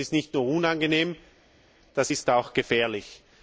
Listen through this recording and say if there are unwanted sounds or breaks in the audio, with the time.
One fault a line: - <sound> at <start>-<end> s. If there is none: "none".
none